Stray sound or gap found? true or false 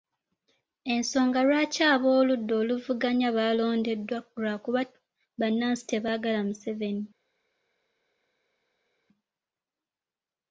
false